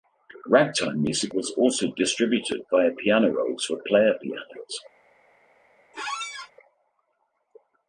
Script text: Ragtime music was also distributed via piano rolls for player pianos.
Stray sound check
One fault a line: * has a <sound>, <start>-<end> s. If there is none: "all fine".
* has a squeak, 5.9-6.5 s